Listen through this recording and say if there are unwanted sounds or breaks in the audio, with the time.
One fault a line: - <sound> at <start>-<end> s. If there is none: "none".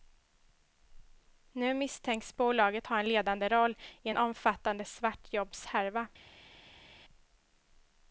none